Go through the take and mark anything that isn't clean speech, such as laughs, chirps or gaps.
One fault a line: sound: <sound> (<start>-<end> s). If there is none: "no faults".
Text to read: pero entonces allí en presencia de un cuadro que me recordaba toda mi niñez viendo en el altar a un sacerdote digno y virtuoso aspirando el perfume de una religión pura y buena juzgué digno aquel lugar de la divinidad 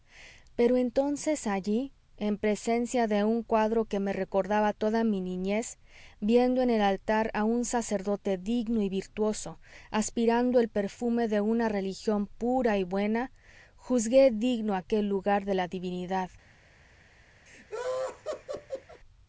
sound: laugh (17.5-19.0 s)